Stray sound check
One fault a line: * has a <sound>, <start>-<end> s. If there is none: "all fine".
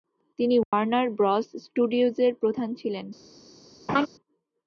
* has a dropout, 0.6-0.7 s
* has a laugh, 3.9-4.1 s